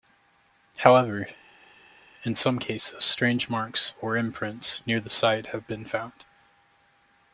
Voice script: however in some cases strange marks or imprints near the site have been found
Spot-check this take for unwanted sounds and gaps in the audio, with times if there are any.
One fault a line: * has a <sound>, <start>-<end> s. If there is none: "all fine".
all fine